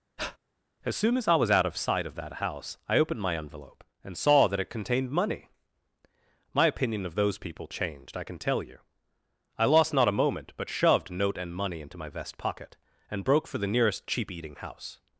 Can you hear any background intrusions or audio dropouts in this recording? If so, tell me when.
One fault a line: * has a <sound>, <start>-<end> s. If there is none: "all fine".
* has a breath, 0.2-0.4 s